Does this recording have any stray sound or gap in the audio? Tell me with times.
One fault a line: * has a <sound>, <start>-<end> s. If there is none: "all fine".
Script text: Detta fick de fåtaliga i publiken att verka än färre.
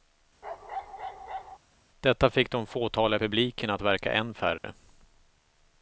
* has a bark, 0.4-1.6 s
* has a dropout, 4.6-4.6 s